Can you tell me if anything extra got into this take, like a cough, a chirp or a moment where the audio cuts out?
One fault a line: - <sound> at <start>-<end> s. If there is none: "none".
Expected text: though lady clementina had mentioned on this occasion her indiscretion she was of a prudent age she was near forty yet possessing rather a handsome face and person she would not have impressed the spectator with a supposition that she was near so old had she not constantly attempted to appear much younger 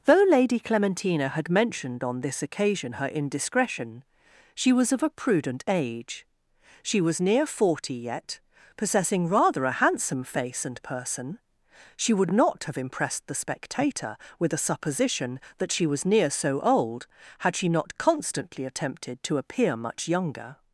none